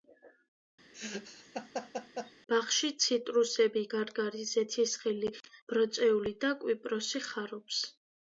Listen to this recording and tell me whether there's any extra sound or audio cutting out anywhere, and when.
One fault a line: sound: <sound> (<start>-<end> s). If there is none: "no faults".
sound: laugh (0.9-2.3 s)